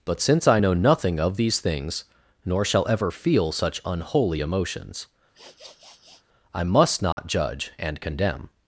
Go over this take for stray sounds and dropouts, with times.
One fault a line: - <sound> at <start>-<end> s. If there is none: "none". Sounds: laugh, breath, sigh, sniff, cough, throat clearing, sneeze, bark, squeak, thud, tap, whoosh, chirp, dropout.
- sniff at 5.3-6.2 s
- dropout at 7.1-7.2 s